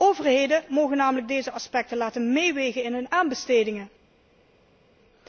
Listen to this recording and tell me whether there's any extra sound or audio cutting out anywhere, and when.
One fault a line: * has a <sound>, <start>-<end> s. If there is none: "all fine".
all fine